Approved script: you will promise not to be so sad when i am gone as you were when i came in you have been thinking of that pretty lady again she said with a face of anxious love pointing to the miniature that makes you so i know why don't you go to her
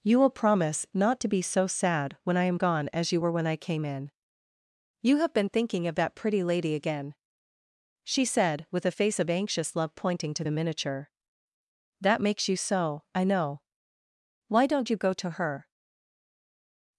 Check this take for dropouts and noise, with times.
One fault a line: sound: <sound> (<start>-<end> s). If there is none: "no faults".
no faults